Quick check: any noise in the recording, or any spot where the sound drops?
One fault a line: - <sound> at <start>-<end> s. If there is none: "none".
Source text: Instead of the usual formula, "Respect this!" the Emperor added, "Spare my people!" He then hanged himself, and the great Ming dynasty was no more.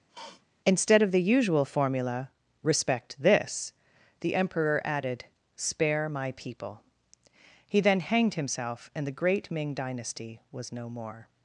- sniff at 0.1-0.4 s